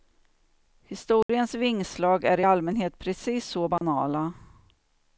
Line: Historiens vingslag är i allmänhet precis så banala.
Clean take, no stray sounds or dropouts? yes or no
no